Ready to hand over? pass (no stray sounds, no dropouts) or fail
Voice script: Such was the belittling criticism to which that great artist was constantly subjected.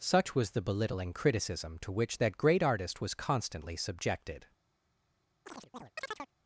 fail